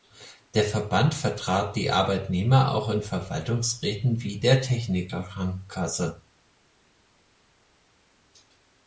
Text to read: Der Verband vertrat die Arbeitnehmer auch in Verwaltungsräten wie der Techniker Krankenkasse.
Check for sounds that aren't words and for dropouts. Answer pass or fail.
pass